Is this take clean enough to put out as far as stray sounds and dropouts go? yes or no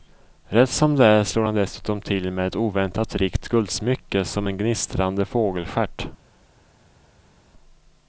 yes